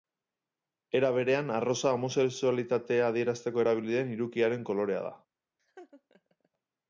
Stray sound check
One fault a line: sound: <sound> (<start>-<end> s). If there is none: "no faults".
sound: laugh (5.6-6.5 s)